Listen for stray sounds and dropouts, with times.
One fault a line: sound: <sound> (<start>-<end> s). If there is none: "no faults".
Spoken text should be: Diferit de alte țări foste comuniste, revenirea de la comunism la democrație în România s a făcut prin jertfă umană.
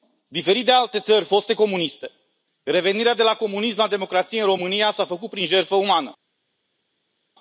no faults